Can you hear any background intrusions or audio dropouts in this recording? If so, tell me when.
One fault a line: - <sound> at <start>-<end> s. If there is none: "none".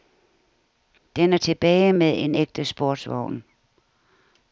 none